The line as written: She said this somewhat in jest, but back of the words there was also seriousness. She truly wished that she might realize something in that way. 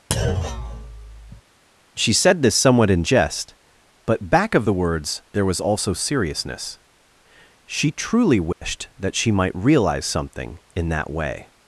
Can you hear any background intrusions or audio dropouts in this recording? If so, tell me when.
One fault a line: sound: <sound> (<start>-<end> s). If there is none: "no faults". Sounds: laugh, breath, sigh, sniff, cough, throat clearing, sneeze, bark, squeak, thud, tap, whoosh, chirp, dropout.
sound: thud (0.1-1.4 s)
sound: dropout (8.5-8.6 s)